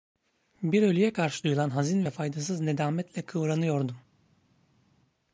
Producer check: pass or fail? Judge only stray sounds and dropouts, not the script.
pass